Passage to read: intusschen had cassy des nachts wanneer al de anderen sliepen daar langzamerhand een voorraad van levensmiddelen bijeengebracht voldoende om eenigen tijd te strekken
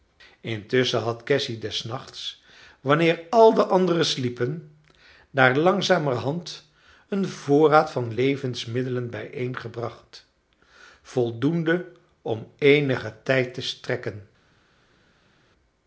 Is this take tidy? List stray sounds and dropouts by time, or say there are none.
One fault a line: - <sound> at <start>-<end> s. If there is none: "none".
none